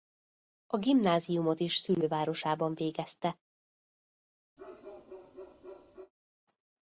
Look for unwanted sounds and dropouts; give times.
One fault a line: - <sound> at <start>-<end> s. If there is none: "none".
- bark at 4.6-6.1 s